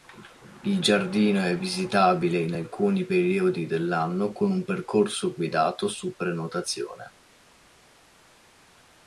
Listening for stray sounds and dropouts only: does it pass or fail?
pass